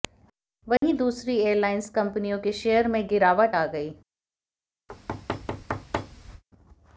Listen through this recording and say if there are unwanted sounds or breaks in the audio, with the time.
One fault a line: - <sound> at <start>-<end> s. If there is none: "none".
- dropout at 0.8-0.8 s
- thud at 4.9-6.4 s